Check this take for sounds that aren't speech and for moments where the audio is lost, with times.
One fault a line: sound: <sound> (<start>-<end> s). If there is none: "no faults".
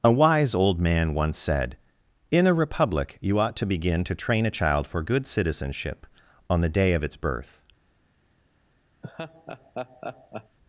sound: laugh (9.0-10.6 s)